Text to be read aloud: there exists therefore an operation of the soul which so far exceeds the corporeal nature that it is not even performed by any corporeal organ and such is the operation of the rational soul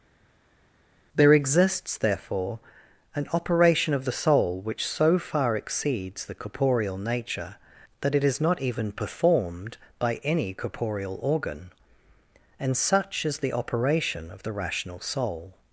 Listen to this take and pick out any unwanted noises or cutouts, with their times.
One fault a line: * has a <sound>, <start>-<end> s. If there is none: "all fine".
all fine